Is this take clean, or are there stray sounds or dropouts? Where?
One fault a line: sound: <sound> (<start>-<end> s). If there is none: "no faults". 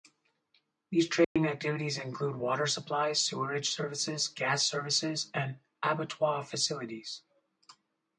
sound: dropout (1.2-1.4 s)